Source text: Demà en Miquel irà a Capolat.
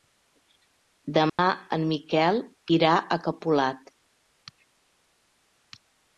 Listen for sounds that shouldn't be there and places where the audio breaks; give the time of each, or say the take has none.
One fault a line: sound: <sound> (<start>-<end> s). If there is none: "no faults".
sound: dropout (1.3-1.4 s)